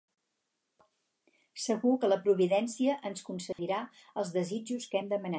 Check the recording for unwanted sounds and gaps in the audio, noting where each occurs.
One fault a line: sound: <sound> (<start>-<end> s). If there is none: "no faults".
sound: dropout (3.5-3.6 s)